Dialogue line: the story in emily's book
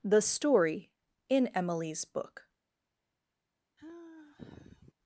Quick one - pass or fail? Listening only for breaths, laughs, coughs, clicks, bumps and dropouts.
fail